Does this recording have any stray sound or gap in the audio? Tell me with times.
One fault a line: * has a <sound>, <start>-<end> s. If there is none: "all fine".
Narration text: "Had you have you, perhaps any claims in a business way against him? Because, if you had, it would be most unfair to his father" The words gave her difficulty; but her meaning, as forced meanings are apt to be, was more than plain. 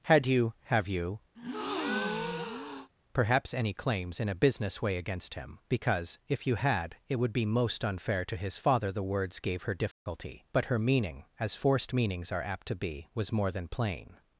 * has a breath, 1.3-2.9 s
* has a dropout, 9.9-10.1 s